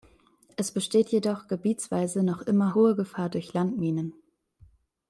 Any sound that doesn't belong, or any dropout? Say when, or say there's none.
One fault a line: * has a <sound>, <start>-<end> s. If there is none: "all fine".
all fine